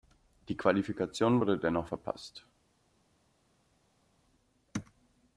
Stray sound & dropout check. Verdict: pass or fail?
pass